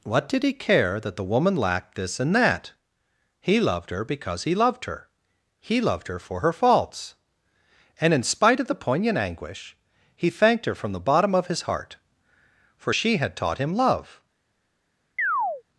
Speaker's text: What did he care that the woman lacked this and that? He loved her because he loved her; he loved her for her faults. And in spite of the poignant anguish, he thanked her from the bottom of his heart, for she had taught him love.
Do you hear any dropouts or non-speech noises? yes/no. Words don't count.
yes